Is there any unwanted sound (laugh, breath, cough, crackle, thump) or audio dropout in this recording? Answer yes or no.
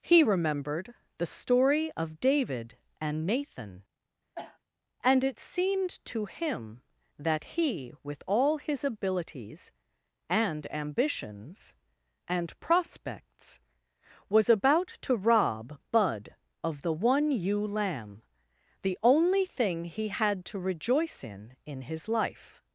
yes